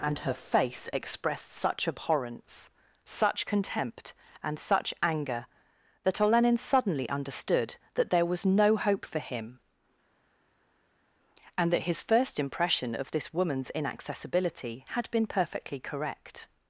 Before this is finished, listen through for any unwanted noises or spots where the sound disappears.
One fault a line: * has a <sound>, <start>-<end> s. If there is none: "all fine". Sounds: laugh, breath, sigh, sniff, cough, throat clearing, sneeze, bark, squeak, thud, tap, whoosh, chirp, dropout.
all fine